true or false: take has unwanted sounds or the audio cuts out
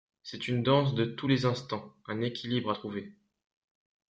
false